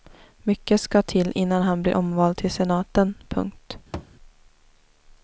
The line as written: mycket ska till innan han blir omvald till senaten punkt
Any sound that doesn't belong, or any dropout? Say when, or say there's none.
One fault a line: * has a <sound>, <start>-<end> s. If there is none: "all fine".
* has a thud, 3.9-4.1 s